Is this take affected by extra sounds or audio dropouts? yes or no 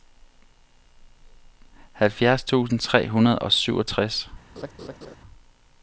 yes